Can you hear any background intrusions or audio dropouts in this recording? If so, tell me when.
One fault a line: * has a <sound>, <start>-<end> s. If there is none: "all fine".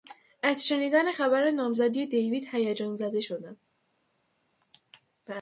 all fine